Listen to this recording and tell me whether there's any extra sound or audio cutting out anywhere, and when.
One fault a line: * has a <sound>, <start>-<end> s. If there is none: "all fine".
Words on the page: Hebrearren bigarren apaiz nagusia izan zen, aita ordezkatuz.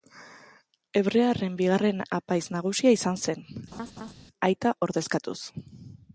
* has a laugh, 3.7-4.1 s